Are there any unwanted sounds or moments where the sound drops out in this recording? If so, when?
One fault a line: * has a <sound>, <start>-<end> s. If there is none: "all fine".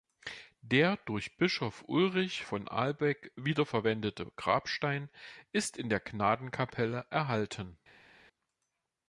all fine